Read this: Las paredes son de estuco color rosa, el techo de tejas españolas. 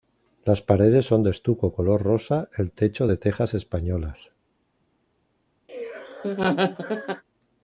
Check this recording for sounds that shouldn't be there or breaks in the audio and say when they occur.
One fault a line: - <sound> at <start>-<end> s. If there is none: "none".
- laugh at 5.7-7.2 s